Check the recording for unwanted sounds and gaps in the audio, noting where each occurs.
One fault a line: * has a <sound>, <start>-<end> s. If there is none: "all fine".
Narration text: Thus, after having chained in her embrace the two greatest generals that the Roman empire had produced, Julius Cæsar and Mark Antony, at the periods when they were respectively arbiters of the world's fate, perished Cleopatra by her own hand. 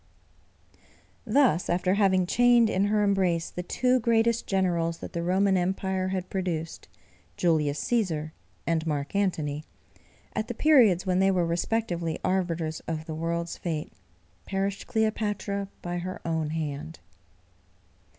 all fine